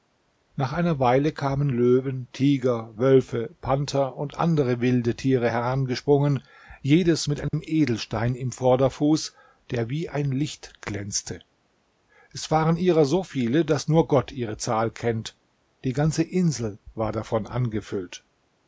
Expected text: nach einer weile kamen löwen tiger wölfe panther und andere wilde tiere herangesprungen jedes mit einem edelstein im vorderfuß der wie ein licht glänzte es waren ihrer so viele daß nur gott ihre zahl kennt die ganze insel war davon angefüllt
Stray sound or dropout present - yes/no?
yes